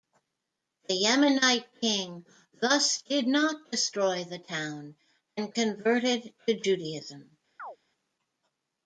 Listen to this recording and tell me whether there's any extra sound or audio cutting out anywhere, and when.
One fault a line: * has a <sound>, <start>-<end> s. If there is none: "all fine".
* has a chirp, 7.6-7.8 s